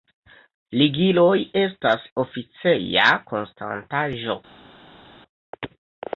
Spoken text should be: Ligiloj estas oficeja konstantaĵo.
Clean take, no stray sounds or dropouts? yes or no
yes